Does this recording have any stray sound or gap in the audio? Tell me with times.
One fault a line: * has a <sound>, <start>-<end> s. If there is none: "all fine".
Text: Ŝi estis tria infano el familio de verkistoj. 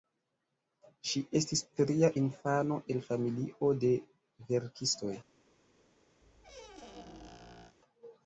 * has a squeak, 6.2-7.8 s